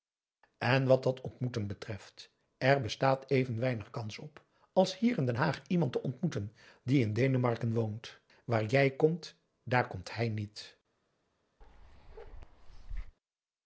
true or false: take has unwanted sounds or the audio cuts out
true